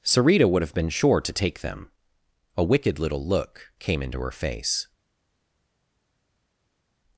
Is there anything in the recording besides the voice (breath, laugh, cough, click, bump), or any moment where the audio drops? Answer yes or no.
no